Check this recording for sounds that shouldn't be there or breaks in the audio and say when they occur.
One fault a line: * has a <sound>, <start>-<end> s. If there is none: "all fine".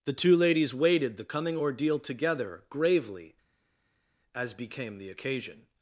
all fine